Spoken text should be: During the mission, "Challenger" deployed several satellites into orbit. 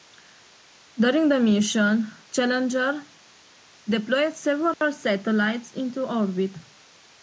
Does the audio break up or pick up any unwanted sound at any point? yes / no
yes